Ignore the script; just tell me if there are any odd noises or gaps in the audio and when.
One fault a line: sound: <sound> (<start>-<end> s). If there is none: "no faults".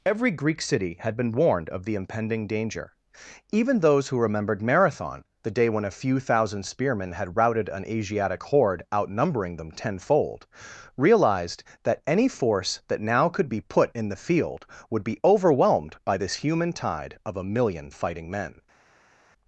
no faults